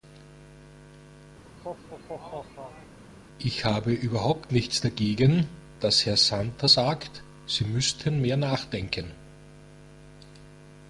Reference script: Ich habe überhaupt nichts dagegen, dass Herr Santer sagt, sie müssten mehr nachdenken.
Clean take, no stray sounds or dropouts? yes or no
no